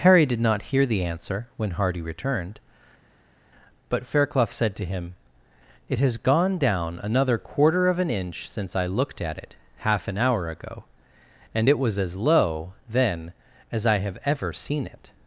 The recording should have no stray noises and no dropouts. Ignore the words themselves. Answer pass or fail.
pass